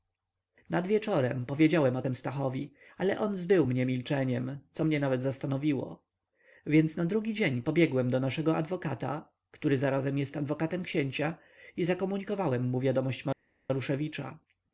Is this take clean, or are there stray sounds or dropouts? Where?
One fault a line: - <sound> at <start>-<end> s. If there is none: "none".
none